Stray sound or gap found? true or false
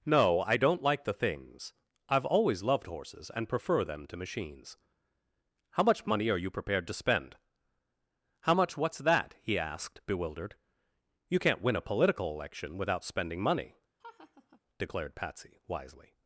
true